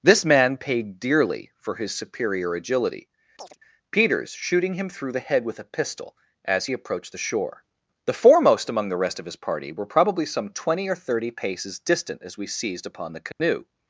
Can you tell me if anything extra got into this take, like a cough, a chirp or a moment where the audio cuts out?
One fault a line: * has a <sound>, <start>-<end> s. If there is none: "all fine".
* has a chirp, 3.4-3.6 s
* has a dropout, 13.3-13.4 s